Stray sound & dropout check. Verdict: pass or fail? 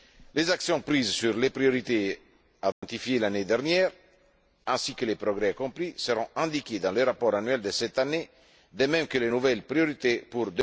fail